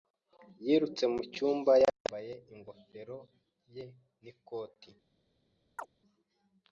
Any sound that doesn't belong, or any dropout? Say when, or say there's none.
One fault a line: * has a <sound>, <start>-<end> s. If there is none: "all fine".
* has a chirp, 5.8-5.9 s